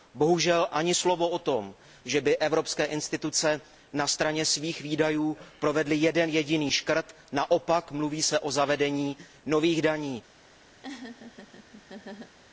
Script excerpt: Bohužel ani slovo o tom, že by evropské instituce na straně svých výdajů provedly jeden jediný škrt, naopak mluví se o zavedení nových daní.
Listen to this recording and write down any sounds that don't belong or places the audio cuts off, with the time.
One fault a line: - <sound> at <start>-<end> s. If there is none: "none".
- laugh at 10.8-12.4 s